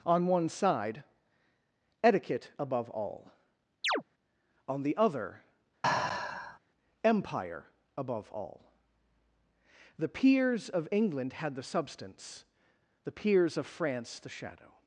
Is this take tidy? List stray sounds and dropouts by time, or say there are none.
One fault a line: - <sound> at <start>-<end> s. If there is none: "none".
- chirp at 3.8-4.0 s
- sigh at 5.8-6.6 s